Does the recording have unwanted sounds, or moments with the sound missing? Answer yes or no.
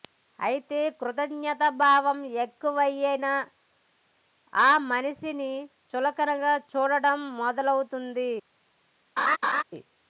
yes